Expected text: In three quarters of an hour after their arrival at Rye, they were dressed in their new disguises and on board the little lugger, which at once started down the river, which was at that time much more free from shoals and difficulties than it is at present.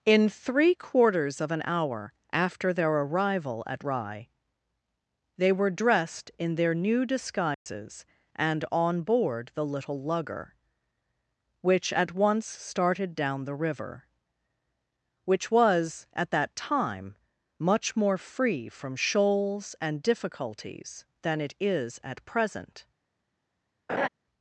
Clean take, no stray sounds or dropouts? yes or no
no